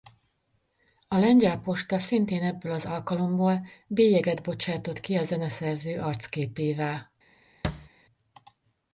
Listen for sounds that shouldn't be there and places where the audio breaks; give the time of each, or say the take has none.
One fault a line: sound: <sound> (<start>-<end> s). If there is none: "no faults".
sound: thud (7.6-7.9 s)